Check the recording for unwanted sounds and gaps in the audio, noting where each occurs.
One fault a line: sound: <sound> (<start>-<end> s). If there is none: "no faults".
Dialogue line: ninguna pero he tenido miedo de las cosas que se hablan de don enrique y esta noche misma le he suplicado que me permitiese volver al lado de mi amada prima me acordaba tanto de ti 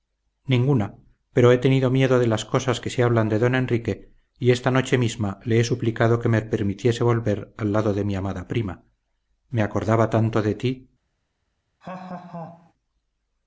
sound: laugh (11.8-12.7 s)